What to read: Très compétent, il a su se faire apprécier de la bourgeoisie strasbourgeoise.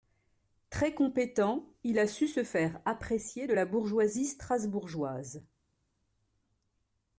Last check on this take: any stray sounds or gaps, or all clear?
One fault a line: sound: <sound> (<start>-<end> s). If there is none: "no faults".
no faults